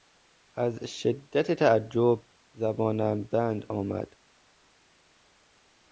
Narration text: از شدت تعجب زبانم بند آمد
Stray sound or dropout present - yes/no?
no